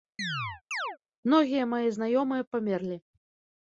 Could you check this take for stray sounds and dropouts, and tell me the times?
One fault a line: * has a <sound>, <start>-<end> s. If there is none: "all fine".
* has a chirp, 0.2-1.0 s